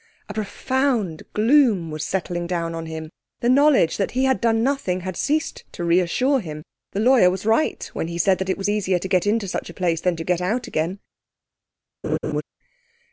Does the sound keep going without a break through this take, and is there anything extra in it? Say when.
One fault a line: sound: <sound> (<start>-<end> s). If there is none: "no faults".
sound: laugh (12.0-12.4 s)